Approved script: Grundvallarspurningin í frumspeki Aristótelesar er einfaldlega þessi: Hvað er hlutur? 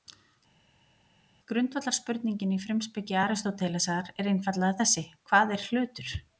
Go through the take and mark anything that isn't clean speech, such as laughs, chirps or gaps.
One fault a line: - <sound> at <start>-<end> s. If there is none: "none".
none